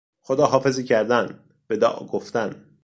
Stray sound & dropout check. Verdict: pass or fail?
pass